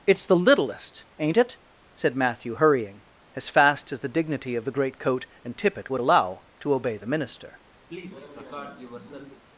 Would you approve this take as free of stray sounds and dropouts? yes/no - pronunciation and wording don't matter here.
no